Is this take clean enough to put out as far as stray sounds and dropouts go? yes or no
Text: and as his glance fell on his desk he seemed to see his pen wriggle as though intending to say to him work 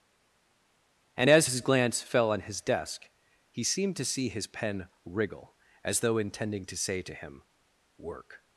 yes